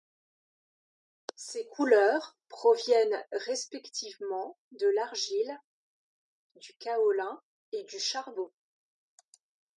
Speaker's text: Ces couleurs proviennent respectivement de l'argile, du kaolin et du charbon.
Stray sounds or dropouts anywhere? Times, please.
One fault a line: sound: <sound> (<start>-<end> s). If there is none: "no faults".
no faults